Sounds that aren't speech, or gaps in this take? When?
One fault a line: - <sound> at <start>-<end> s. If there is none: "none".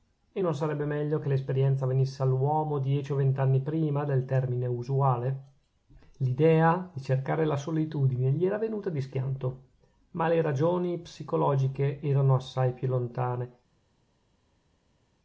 none